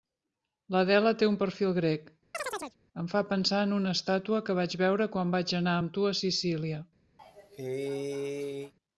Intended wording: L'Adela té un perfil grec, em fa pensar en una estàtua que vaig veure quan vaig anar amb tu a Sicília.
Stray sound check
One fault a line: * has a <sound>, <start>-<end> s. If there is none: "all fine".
* has a chirp, 2.3-2.8 s
* has a cough, 7.2-8.7 s